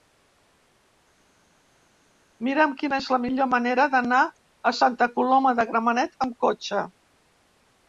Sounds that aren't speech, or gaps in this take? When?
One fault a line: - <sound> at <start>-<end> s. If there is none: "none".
none